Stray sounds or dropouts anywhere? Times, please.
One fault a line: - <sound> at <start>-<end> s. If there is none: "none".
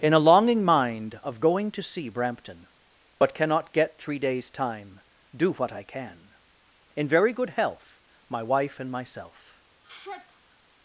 - sigh at 9.8-10.6 s